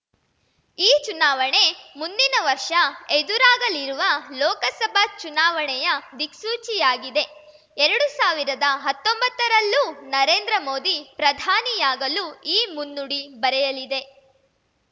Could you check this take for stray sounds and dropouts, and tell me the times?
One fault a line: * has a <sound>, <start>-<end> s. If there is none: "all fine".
all fine